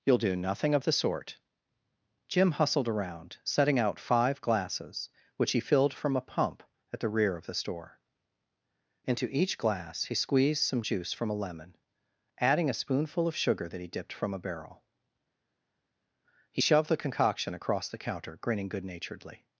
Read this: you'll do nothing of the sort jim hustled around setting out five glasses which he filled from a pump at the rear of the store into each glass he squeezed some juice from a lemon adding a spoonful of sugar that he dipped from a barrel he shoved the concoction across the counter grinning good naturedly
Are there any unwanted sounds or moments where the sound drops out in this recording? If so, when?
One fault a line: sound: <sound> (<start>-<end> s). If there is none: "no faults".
no faults